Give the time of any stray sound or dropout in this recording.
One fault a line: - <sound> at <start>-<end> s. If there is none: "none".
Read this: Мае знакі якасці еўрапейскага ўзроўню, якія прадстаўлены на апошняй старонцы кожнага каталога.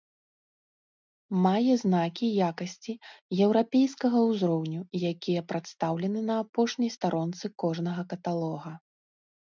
none